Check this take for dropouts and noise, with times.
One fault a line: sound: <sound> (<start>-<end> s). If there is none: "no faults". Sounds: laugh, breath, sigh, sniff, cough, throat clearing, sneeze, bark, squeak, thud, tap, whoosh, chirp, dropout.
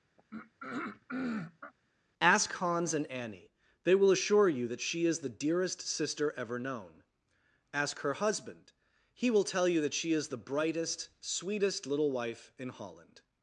sound: throat clearing (0.2-1.7 s)